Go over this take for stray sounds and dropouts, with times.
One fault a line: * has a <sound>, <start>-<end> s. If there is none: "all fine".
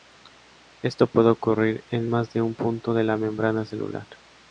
all fine